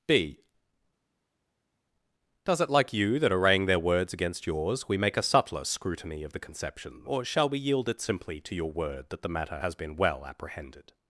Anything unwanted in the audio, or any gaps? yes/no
no